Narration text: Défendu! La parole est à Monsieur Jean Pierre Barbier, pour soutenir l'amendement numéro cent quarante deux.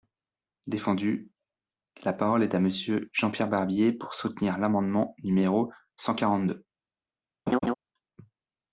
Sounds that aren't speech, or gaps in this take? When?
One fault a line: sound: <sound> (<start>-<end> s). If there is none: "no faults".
sound: laugh (7.5-7.7 s)